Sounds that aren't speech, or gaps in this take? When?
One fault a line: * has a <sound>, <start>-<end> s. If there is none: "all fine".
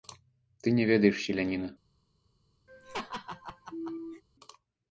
* has a laugh, 2.7-4.2 s